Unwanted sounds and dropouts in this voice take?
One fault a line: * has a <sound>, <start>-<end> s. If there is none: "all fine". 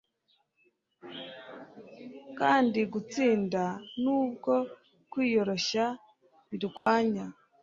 * has a dropout, 6.8-6.9 s